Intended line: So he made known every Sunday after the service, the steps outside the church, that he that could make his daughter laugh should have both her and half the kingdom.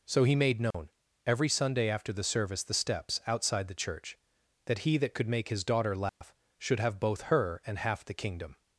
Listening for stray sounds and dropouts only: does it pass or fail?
fail